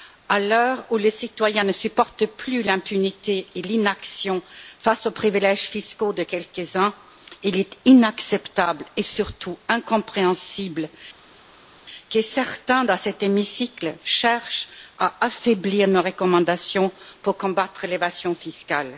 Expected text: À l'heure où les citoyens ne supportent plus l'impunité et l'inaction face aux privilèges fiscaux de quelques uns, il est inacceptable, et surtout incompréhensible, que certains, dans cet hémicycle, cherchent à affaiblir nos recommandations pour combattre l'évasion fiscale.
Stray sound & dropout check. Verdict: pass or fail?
pass